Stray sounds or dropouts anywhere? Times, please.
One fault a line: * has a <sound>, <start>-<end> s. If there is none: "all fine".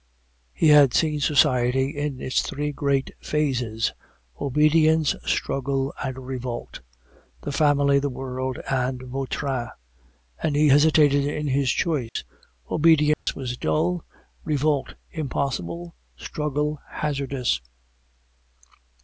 * has a dropout, 12.1-12.2 s
* has a dropout, 13.1-13.3 s